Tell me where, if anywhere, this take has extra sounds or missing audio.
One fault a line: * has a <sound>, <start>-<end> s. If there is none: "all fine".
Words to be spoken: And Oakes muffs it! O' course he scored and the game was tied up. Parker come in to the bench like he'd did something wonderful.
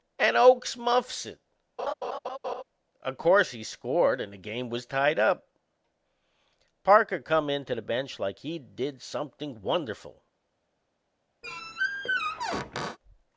* has a laugh, 1.8-2.6 s
* has a squeak, 11.4-13.0 s